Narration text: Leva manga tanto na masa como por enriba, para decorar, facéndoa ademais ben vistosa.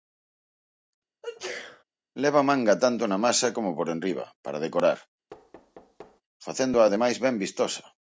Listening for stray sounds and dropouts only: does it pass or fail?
fail